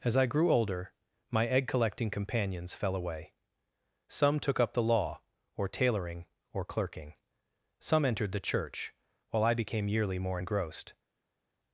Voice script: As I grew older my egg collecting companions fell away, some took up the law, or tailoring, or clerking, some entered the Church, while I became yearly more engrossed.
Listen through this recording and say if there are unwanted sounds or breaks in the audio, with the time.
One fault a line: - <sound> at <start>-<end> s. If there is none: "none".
none